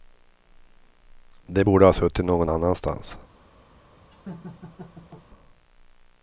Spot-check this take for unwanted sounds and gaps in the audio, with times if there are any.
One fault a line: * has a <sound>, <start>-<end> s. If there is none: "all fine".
* has a laugh, 4.1-5.3 s